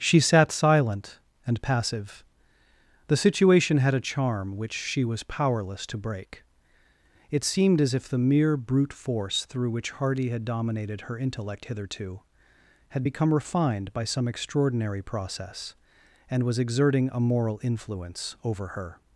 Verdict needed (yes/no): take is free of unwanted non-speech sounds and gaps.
yes